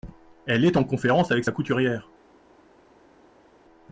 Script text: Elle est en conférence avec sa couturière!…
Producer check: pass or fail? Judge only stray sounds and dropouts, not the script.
pass